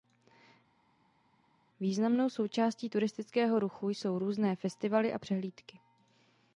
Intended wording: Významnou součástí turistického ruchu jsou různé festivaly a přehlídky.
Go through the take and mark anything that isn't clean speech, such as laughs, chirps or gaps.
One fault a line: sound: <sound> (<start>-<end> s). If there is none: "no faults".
no faults